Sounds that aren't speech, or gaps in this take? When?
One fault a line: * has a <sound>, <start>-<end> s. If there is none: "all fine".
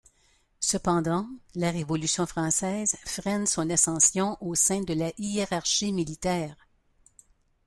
all fine